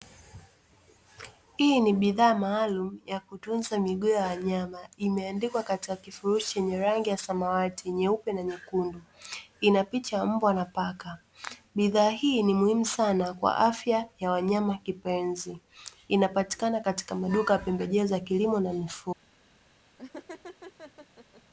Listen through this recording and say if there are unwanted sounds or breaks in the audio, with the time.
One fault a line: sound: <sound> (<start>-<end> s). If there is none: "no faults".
sound: laugh (20.0-21.4 s)